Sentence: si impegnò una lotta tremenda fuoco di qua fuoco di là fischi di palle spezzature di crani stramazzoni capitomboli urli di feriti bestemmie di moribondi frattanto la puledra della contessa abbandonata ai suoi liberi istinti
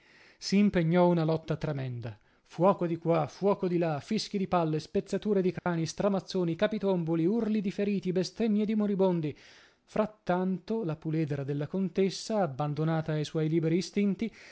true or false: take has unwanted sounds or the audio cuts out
true